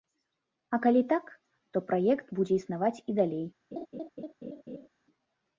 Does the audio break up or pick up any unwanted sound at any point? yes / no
yes